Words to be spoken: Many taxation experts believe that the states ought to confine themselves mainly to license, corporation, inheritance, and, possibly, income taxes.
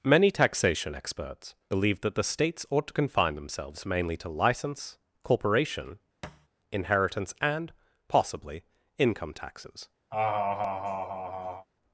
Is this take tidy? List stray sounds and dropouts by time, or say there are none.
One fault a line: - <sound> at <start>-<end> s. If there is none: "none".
- thud at 6.2-6.5 s
- laugh at 10.1-11.7 s